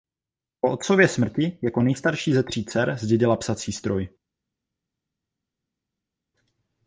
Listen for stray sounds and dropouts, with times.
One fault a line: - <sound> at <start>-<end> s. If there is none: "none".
none